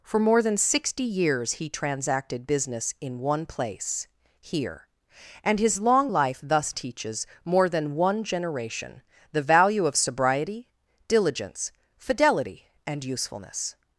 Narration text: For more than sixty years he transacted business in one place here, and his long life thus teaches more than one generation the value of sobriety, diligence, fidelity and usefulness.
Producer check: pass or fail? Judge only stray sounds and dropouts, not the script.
pass